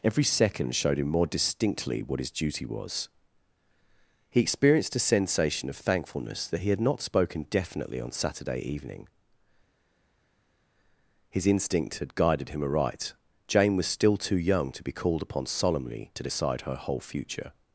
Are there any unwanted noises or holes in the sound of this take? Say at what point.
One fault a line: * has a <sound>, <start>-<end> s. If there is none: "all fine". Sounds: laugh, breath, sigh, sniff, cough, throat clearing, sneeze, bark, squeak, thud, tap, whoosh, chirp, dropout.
all fine